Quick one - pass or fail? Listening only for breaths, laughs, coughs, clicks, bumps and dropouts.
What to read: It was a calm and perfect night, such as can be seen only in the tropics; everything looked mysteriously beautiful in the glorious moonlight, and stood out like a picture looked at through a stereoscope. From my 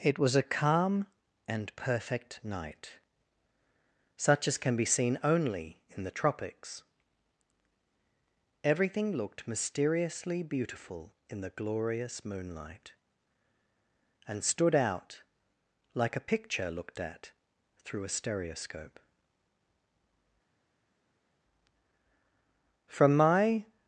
pass